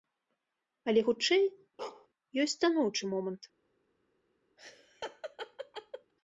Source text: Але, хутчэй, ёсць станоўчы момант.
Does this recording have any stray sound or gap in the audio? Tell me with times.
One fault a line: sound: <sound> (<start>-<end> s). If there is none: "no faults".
sound: bark (1.8-2.1 s)
sound: laugh (4.6-6.1 s)